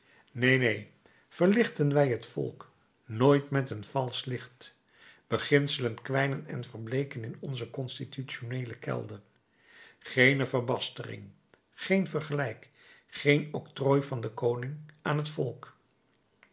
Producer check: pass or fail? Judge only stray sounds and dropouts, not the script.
pass